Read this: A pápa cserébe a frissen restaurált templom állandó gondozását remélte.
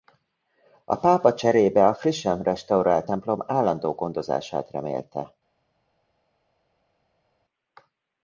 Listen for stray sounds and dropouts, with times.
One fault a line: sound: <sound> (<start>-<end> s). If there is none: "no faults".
no faults